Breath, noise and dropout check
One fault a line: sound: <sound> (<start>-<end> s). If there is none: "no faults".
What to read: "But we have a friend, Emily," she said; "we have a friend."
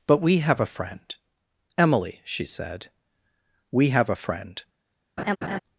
sound: laugh (5.2-5.6 s)